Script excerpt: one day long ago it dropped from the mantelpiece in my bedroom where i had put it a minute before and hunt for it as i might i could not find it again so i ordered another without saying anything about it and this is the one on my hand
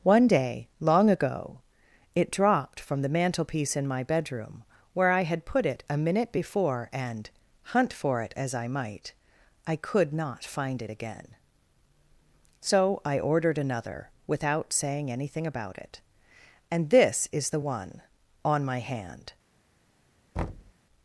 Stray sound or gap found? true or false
true